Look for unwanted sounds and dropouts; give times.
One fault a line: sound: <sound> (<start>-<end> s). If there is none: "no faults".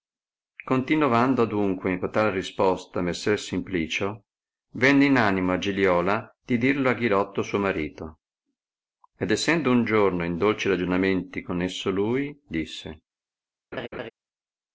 sound: laugh (13.7-14.1 s)